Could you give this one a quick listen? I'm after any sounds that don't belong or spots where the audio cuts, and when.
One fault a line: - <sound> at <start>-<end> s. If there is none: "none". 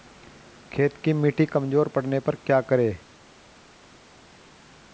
none